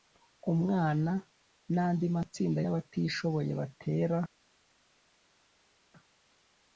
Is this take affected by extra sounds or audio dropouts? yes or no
no